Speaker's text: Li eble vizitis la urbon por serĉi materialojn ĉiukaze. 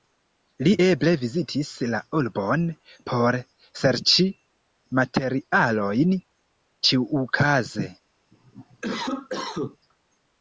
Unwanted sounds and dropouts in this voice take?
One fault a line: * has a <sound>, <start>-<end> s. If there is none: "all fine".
* has a cough, 8.3-9.8 s